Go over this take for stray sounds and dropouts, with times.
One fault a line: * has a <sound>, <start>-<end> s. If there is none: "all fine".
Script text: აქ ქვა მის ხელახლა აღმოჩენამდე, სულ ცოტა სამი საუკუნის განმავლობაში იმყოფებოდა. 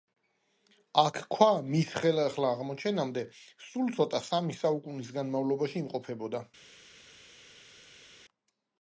all fine